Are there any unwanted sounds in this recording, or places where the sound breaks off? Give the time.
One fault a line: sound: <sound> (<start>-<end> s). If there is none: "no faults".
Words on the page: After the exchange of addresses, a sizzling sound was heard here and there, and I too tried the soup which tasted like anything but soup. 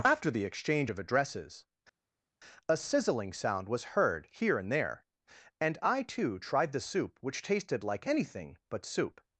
no faults